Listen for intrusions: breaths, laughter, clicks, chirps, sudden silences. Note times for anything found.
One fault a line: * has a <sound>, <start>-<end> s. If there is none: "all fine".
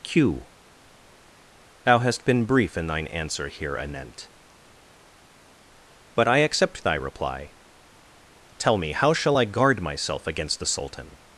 all fine